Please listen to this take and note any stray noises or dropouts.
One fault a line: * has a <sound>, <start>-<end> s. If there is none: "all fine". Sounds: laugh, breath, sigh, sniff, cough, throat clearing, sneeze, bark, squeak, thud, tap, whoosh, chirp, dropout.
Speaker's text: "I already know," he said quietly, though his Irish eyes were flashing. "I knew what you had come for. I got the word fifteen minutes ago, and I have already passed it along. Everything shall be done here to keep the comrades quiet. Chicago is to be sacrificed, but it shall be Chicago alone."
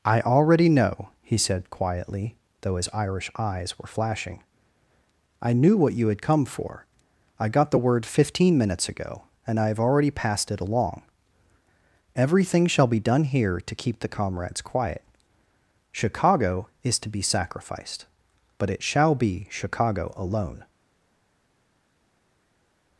all fine